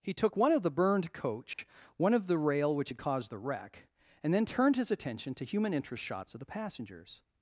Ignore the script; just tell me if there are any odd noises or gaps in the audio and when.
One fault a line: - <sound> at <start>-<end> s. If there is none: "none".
- dropout at 1.5-1.6 s